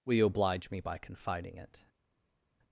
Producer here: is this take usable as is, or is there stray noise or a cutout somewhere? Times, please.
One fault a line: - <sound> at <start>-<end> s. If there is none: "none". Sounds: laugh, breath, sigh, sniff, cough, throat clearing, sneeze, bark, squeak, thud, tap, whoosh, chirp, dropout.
none